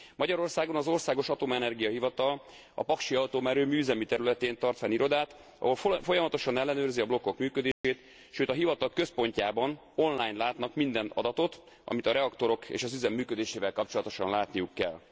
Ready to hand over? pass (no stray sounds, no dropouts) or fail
fail